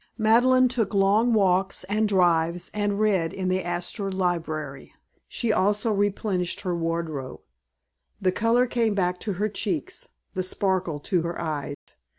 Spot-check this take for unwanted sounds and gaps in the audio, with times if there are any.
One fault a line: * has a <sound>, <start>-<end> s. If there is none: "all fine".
* has a dropout, 11.7-11.9 s